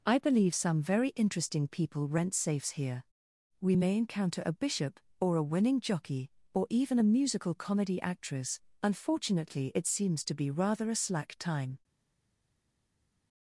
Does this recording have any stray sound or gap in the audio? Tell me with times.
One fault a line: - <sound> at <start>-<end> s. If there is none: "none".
none